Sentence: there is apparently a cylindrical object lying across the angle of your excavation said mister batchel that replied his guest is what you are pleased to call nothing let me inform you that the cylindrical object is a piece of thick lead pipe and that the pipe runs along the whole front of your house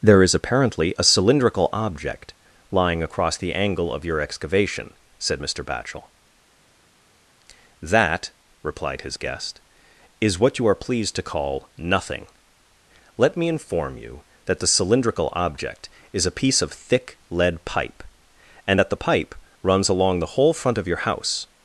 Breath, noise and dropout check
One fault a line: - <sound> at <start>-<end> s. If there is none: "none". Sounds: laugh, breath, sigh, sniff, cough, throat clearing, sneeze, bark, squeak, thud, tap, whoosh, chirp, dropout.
none